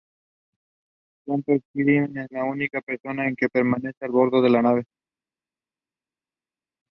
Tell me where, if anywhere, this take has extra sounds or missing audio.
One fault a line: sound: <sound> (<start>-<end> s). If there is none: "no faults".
no faults